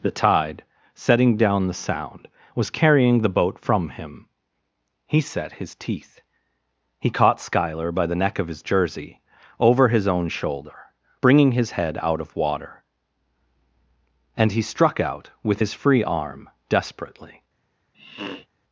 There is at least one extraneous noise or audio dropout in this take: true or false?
true